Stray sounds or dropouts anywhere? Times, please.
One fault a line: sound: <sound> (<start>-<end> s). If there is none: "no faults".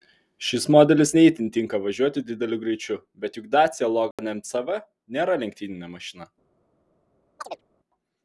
sound: dropout (4.1-4.2 s)
sound: chirp (7.4-7.6 s)